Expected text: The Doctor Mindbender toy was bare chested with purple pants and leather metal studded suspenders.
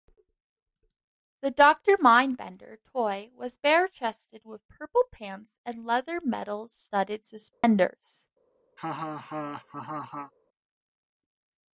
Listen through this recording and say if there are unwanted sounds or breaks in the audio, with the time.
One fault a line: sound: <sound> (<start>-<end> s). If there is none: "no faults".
sound: dropout (7.5-7.6 s)
sound: laugh (8.8-10.3 s)